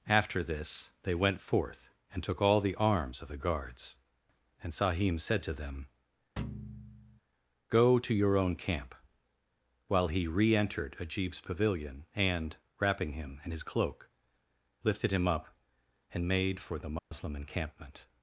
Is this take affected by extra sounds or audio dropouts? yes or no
yes